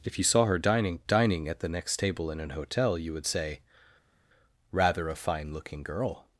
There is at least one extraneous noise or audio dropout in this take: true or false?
false